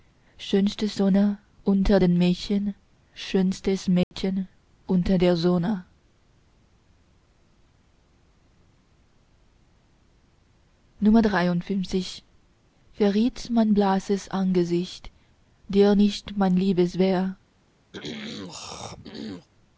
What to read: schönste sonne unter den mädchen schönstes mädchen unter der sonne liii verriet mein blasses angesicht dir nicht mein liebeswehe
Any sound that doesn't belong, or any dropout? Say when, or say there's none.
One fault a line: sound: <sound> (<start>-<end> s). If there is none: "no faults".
sound: dropout (4.0-4.1 s)
sound: throat clearing (17.9-19.5 s)